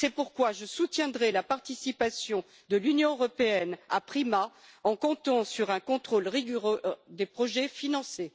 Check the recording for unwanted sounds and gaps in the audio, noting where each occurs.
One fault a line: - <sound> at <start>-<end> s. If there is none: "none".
none